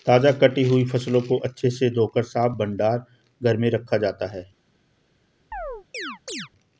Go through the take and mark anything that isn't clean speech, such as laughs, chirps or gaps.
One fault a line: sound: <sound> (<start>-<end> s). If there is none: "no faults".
sound: chirp (5.5-6.5 s)